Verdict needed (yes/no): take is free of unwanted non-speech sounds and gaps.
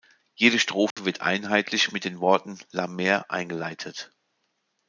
no